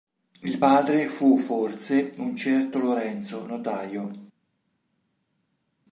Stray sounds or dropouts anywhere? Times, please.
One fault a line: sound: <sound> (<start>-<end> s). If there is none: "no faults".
no faults